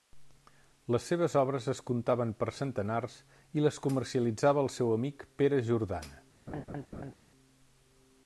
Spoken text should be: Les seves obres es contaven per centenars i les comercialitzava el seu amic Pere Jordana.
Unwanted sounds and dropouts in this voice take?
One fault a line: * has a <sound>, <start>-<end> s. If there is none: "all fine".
* has a laugh, 6.5-7.1 s